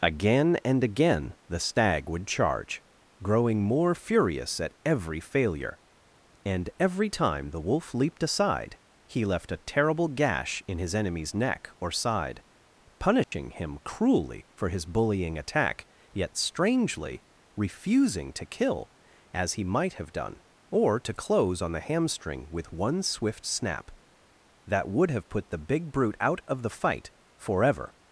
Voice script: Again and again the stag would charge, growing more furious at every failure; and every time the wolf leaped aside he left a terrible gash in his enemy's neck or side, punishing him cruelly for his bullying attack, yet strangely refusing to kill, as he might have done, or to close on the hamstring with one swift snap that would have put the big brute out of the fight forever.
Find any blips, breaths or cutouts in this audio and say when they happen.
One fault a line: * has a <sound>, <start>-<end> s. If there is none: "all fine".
* has a dropout, 13.2-13.3 s